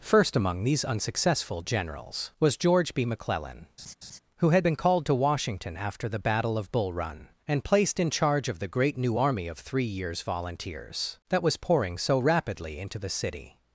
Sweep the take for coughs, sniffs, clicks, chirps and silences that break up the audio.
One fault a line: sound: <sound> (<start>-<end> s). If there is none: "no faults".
sound: laugh (3.8-4.2 s)